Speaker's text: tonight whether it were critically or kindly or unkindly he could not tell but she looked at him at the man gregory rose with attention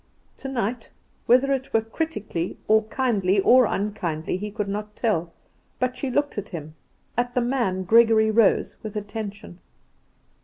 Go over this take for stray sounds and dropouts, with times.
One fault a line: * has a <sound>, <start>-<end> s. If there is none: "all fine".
all fine